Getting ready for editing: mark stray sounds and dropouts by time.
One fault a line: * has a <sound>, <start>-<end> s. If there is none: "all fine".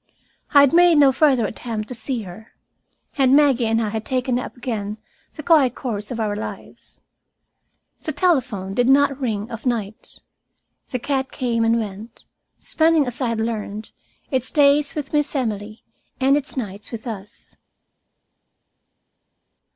all fine